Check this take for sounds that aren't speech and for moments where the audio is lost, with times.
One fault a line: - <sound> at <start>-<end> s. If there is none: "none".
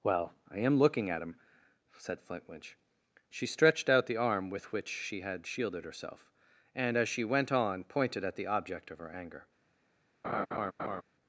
- laugh at 10.2-11.0 s